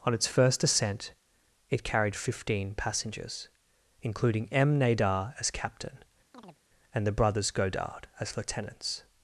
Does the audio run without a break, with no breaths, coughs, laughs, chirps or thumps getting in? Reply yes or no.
no